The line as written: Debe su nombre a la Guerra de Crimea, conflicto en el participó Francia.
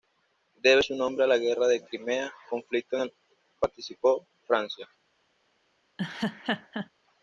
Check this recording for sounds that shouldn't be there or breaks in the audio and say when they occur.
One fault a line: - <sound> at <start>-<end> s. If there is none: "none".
- laugh at 6.0-6.9 s